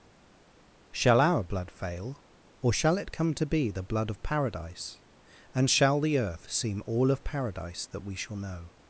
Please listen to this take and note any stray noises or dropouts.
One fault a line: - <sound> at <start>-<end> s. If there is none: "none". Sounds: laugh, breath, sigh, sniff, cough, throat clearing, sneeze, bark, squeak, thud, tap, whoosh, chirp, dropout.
none